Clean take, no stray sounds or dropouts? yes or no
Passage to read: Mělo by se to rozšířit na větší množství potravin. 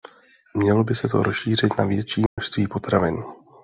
no